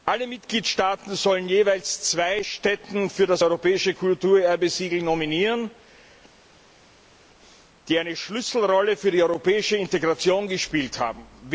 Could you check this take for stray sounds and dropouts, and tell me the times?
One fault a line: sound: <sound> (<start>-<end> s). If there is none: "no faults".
no faults